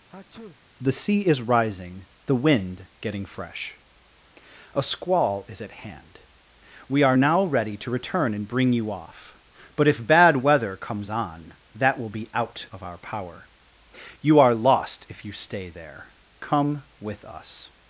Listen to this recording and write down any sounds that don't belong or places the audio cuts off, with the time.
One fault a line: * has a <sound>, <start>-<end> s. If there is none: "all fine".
* has a sneeze, 0.1-0.6 s